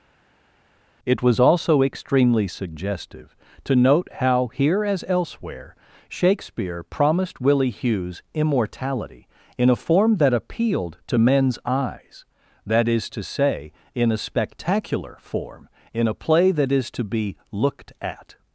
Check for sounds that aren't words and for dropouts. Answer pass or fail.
pass